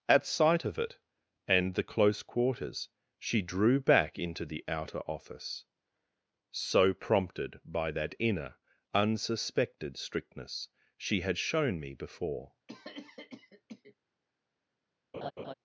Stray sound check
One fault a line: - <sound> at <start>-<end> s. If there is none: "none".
- cough at 12.7-14.0 s
- laugh at 15.1-15.5 s